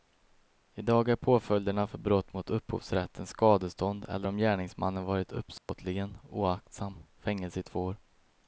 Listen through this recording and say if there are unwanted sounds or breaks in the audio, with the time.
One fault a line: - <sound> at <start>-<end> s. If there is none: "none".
- dropout at 5.6-5.7 s